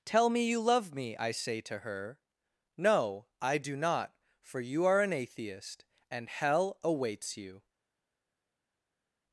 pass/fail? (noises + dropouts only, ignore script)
pass